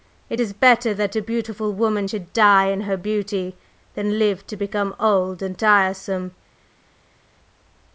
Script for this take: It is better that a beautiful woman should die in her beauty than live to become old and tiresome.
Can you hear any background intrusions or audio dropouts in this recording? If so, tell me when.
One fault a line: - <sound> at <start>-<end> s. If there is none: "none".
none